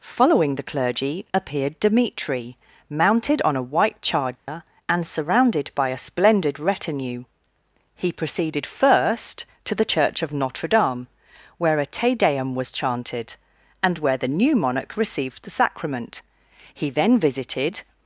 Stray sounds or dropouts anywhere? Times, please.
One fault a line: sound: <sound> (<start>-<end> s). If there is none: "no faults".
sound: dropout (4.4-4.5 s)